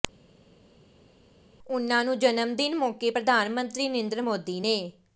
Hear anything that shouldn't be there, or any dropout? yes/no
no